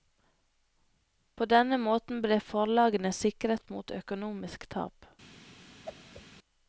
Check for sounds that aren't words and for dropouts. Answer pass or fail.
fail